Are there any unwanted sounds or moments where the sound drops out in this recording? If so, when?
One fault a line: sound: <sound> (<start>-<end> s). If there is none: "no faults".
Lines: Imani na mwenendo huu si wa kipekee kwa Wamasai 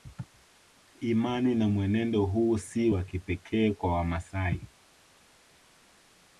no faults